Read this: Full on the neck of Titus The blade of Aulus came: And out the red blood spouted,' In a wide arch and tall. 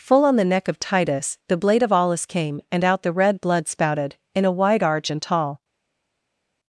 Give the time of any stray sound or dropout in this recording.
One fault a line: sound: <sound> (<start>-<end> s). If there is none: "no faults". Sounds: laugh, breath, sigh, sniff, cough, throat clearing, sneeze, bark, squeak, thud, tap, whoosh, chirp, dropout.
no faults